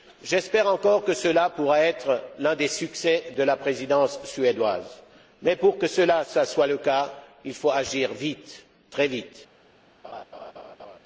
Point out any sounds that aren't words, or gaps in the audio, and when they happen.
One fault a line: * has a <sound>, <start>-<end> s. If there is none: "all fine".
* has a laugh, 10.0-11.0 s